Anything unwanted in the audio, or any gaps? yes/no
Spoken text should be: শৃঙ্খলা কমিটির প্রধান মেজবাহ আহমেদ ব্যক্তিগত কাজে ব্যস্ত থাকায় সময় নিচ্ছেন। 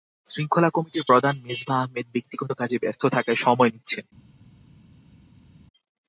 no